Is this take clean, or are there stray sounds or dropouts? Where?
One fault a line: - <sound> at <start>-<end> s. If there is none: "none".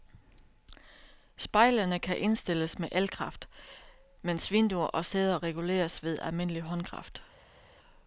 none